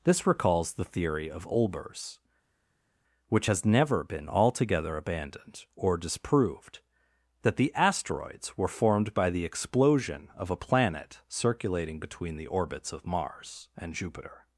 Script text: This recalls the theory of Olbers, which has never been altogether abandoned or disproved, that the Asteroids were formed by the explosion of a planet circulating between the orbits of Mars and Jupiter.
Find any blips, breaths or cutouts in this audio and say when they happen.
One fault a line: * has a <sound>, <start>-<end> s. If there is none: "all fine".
all fine